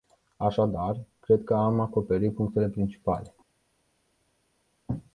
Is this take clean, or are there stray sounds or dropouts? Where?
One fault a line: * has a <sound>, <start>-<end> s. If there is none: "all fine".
all fine